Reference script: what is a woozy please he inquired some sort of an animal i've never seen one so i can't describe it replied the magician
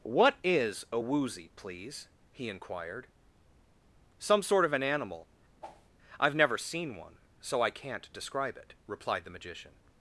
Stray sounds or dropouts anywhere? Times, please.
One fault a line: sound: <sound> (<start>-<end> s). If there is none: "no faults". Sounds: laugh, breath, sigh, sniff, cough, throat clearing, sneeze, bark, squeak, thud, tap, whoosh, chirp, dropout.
sound: whoosh (5.6-5.9 s)